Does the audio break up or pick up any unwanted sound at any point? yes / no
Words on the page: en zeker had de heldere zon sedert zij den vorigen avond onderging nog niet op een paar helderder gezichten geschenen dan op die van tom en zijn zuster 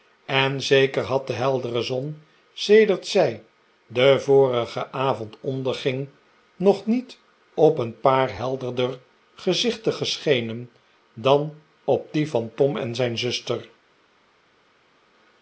no